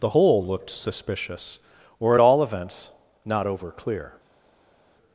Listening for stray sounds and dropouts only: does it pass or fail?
pass